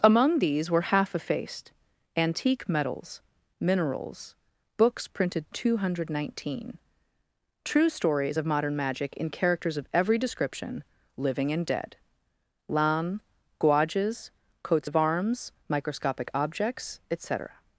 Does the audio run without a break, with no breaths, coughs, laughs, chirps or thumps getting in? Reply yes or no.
yes